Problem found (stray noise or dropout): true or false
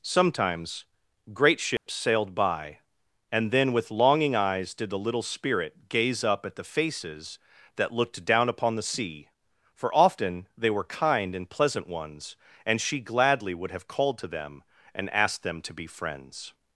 true